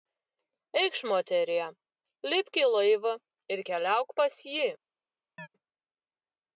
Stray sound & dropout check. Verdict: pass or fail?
fail